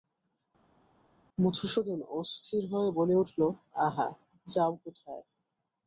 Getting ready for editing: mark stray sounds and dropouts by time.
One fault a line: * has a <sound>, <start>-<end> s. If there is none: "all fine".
all fine